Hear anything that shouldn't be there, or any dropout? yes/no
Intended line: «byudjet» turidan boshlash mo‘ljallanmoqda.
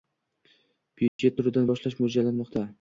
yes